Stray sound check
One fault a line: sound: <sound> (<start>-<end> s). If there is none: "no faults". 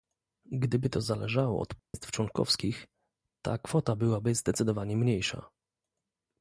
sound: dropout (1.8-1.9 s)